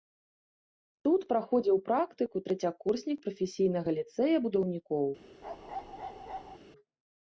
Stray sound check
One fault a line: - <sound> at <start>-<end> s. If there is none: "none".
- bark at 5.4-6.6 s